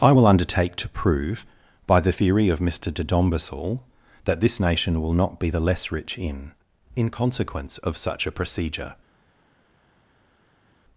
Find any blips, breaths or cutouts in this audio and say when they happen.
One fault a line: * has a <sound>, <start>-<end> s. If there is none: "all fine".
all fine